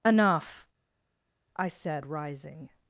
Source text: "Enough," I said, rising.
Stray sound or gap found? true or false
false